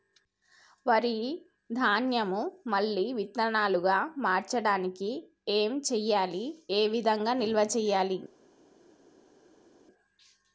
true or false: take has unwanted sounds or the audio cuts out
false